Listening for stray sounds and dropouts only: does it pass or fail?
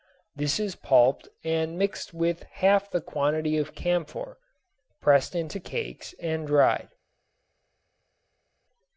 pass